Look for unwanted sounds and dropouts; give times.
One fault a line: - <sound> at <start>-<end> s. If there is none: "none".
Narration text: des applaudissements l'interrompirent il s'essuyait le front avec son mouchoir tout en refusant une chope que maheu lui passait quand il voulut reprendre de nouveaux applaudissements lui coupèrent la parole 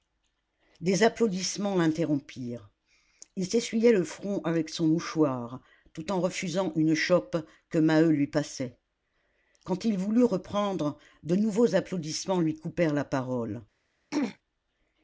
- throat clearing at 14.1-14.4 s